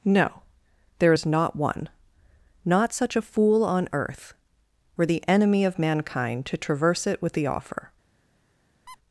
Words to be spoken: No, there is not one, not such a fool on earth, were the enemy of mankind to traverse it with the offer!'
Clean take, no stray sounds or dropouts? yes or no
no